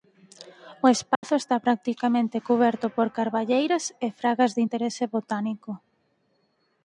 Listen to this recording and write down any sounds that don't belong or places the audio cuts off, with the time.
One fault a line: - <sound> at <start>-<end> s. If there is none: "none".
- dropout at 1.1-1.2 s